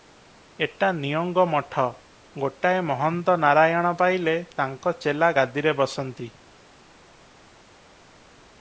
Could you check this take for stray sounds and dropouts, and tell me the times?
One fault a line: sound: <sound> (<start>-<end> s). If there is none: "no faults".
no faults